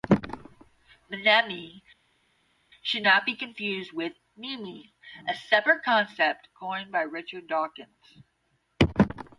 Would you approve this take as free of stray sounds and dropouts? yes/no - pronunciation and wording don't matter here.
yes